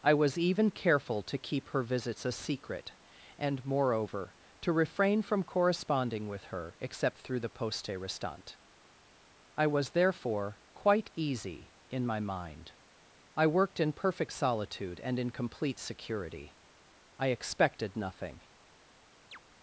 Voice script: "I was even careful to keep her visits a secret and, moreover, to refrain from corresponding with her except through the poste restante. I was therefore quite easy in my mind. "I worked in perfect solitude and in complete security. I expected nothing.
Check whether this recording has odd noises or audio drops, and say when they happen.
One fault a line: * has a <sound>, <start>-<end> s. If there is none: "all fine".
* has a chirp, 19.3-19.4 s